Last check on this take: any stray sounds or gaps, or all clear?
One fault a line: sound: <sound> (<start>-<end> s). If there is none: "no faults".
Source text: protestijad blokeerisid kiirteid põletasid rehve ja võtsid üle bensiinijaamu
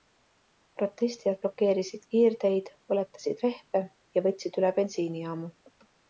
no faults